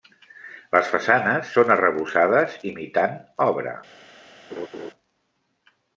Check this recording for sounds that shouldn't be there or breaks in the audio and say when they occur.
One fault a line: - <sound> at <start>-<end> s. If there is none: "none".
- laugh at 4.5-4.9 s